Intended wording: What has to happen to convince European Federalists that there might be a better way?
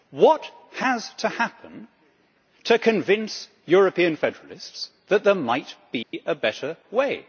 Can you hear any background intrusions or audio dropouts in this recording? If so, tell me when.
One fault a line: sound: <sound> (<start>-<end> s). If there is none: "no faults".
sound: dropout (6.0-6.1 s)